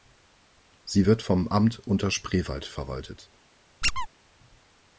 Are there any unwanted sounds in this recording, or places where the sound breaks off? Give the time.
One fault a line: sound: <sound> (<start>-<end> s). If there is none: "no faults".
sound: squeak (3.8-4.1 s)